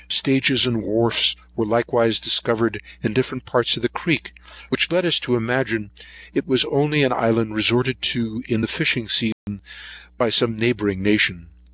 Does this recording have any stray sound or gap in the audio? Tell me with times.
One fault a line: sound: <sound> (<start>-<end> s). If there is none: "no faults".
sound: dropout (9.3-9.5 s)